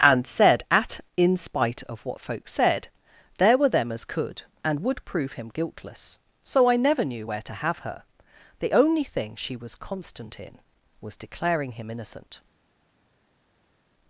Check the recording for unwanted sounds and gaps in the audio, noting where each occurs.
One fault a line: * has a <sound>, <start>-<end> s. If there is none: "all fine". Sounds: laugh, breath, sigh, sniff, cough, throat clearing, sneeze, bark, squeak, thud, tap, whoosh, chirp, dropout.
all fine